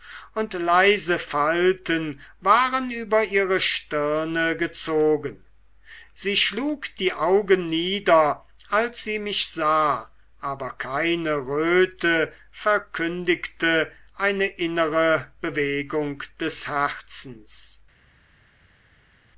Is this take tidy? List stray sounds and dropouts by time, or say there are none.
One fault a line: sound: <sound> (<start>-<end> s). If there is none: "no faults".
no faults